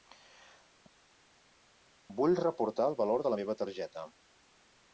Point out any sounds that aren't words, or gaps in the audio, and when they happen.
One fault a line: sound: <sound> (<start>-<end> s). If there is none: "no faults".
no faults